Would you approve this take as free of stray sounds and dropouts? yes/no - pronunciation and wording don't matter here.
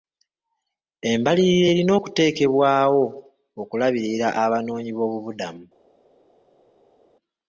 yes